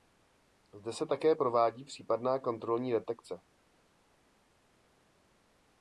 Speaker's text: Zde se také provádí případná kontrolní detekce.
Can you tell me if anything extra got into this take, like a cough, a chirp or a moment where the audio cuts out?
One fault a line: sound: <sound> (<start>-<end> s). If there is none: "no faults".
no faults